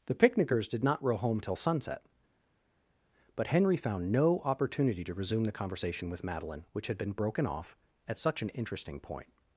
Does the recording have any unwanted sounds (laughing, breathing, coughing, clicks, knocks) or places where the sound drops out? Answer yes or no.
no